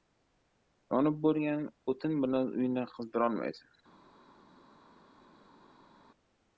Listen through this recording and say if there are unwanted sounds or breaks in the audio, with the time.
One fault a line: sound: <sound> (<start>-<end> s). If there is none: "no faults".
no faults